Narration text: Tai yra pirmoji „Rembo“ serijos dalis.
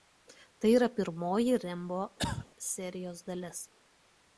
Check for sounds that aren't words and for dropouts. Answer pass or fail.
fail